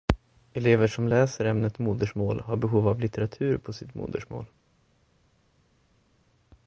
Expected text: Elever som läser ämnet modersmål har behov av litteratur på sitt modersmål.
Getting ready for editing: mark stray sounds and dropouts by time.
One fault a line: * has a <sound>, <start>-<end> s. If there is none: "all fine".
all fine